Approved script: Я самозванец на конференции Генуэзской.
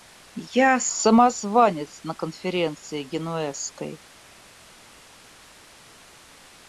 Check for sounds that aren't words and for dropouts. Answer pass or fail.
pass